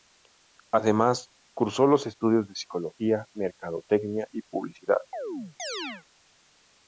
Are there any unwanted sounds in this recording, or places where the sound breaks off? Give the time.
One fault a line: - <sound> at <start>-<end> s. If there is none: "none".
- chirp at 5.1-6.1 s